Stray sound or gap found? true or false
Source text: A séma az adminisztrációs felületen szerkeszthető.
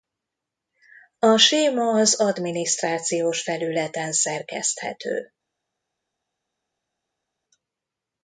false